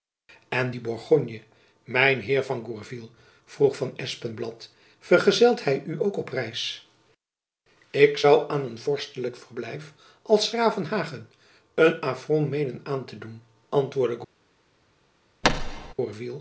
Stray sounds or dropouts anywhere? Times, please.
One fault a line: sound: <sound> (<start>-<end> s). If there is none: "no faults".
sound: thud (15.4-15.9 s)